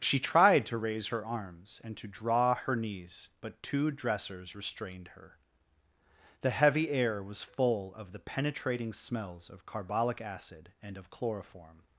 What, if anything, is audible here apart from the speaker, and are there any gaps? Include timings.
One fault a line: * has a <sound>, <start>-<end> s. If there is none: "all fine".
all fine